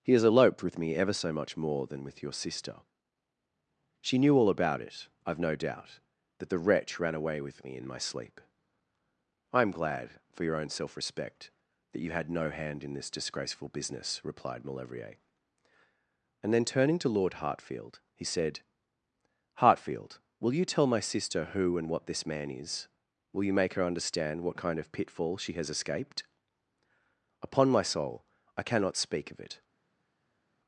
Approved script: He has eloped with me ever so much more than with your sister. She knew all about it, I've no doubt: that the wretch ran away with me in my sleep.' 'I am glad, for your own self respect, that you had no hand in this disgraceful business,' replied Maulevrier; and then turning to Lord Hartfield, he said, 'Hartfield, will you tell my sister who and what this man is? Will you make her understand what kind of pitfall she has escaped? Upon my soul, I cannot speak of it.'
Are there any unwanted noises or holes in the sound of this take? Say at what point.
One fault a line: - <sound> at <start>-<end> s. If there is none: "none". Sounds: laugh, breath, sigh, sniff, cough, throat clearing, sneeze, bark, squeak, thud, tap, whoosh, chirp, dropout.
none